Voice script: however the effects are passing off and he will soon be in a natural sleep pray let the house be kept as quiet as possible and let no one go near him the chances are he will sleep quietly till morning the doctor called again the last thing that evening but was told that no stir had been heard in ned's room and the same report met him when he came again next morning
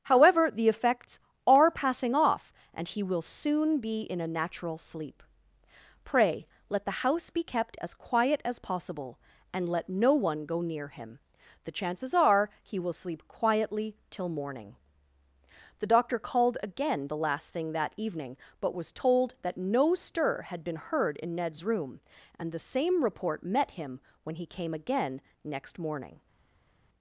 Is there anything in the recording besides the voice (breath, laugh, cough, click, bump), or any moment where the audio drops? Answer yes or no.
no